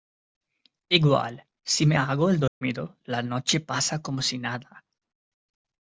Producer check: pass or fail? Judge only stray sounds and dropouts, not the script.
fail